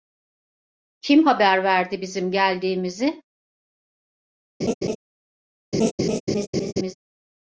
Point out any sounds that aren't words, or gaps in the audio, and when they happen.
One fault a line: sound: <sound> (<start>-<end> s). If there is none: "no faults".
sound: laugh (4.6-5.0 s)
sound: laugh (5.7-6.9 s)